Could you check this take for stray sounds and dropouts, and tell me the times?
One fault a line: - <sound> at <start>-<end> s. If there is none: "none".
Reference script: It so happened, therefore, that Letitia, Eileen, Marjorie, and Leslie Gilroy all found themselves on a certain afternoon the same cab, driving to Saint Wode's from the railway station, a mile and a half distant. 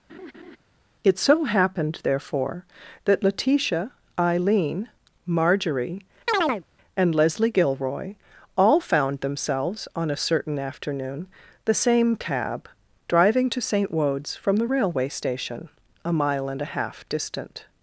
- laugh at 0.1-0.6 s
- chirp at 6.3-6.6 s